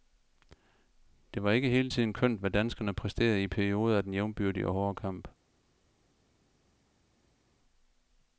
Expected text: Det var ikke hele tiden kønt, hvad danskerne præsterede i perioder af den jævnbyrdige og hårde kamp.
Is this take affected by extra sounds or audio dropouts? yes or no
no